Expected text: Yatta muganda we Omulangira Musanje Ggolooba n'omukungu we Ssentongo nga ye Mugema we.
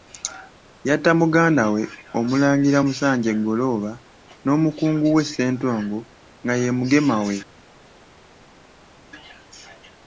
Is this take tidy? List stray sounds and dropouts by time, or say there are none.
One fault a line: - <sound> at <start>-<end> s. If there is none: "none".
none